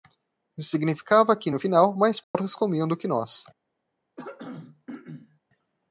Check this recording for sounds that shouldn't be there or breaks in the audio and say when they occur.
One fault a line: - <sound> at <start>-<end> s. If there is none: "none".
- dropout at 2.2-2.3 s
- throat clearing at 4.2-5.4 s